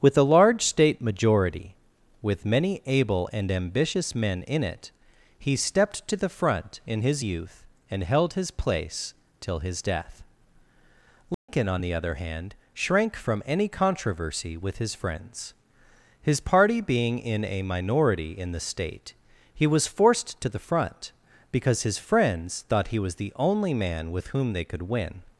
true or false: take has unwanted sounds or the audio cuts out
true